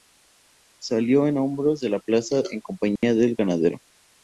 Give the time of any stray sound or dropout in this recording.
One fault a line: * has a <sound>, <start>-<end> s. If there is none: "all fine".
* has a dropout, 3.0-3.0 s